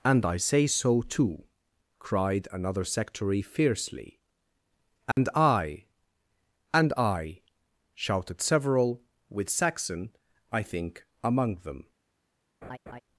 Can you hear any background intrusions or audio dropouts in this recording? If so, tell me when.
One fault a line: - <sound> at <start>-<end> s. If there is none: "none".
- dropout at 5.1-5.2 s
- laugh at 12.6-13.0 s